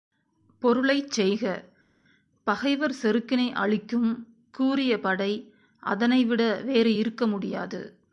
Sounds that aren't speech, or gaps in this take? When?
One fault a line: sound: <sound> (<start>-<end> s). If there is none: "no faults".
no faults